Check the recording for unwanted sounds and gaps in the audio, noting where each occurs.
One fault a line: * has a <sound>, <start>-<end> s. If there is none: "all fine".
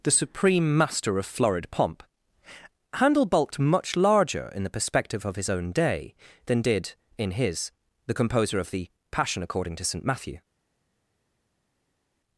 all fine